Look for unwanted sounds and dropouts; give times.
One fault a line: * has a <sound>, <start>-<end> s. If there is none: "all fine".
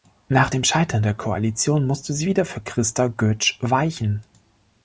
all fine